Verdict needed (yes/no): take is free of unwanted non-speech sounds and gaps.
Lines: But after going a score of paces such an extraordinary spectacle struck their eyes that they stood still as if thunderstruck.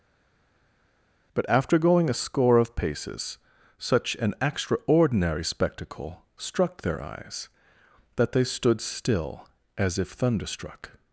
yes